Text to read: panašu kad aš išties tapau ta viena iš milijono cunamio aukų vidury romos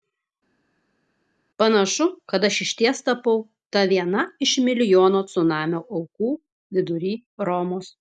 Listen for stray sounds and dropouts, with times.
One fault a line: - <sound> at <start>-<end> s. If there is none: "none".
none